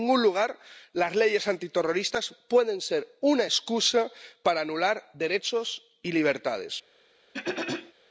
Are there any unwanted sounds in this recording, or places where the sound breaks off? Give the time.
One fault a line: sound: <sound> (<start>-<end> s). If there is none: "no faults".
sound: throat clearing (7.3-7.9 s)